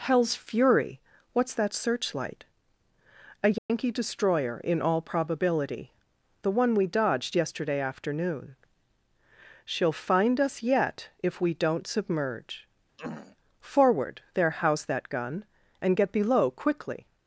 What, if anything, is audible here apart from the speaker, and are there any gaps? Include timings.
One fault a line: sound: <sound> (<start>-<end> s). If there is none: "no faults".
sound: dropout (3.6-3.7 s)
sound: throat clearing (13.0-13.4 s)